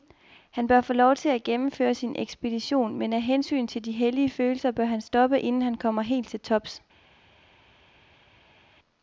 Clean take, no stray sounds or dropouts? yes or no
yes